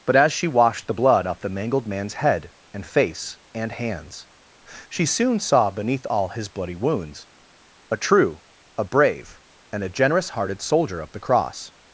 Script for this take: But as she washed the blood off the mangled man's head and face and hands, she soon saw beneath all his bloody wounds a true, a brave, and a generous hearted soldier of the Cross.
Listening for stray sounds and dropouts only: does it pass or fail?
pass